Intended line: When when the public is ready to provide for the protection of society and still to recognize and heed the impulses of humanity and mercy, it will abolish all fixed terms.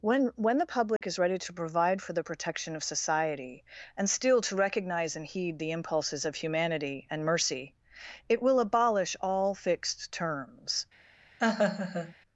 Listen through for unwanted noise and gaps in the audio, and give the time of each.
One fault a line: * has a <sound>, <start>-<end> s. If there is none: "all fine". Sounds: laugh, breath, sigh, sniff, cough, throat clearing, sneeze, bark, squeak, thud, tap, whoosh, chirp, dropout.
* has a dropout, 1.0-1.0 s
* has a laugh, 11.4-12.2 s